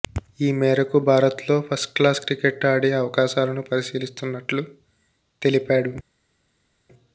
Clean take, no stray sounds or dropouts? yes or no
yes